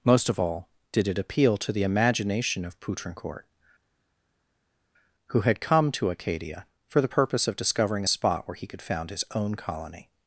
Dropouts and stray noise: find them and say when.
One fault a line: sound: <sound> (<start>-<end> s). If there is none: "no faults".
no faults